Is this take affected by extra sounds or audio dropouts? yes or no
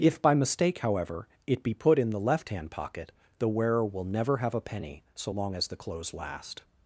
no